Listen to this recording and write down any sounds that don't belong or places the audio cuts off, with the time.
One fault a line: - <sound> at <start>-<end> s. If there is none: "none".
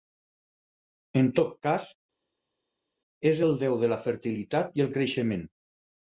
none